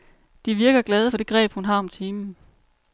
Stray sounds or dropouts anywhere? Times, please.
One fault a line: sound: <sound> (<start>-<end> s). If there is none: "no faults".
no faults